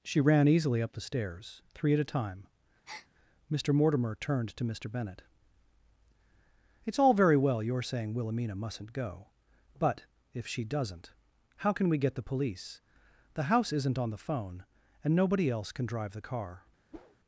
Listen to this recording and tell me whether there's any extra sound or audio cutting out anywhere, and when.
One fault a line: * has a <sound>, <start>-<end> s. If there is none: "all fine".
* has a breath, 2.9-3.1 s
* has a whoosh, 16.9-17.2 s